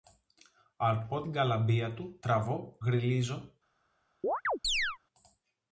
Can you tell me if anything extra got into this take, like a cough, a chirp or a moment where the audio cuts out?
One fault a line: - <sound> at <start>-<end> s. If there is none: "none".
- chirp at 4.2-5.0 s